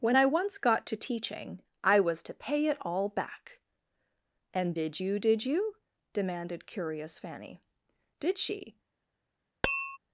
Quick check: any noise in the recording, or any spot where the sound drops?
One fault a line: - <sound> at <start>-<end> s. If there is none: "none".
- tap at 9.6-10.0 s